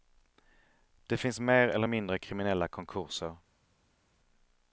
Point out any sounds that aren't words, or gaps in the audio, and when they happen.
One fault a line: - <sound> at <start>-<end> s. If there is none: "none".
none